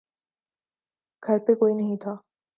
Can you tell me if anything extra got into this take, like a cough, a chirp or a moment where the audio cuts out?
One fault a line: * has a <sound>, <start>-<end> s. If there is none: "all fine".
all fine